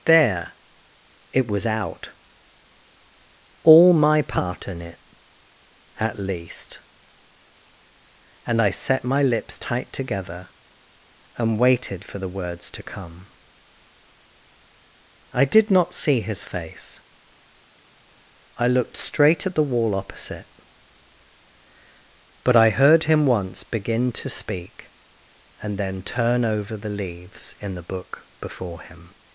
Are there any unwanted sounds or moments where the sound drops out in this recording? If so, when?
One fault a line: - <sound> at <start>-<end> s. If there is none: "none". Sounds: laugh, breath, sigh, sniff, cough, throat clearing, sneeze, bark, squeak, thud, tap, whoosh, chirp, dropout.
none